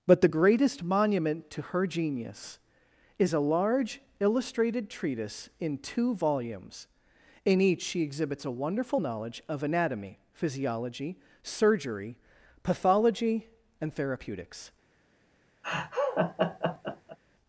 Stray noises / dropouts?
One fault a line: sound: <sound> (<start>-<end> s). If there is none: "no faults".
sound: laugh (15.6-17.2 s)